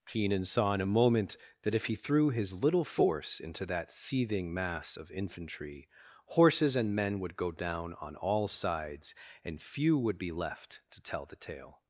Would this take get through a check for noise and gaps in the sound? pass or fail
pass